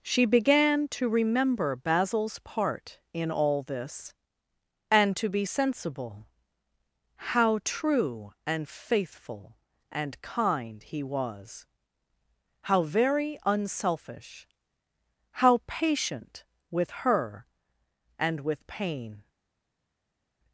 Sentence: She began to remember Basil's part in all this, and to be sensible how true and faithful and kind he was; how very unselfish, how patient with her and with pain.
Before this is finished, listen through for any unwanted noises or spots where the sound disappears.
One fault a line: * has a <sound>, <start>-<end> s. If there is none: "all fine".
all fine